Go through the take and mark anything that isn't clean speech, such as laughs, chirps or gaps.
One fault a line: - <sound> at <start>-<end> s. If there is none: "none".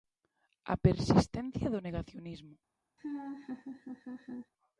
- laugh at 3.0-4.5 s